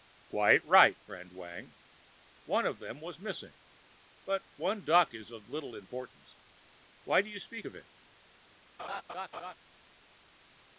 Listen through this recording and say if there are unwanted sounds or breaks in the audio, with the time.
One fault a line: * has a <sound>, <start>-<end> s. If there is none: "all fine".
* has a laugh, 8.8-9.5 s